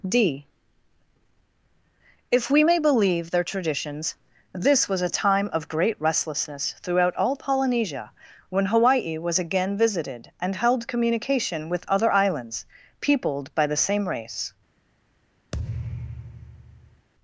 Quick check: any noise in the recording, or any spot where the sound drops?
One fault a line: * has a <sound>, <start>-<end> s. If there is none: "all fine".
* has a thud, 15.5-17.1 s